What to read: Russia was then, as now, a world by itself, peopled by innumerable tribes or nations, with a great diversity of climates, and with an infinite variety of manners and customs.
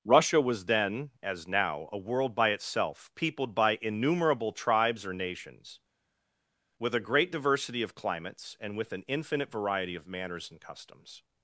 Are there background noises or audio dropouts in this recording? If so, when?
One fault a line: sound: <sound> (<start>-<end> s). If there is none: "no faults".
no faults